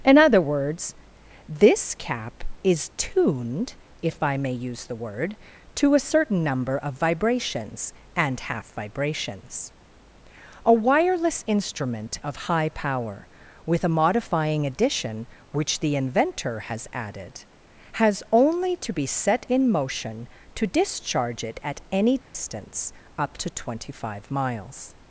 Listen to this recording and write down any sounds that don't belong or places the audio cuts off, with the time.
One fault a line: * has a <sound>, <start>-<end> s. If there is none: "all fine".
* has a dropout, 22.2-22.3 s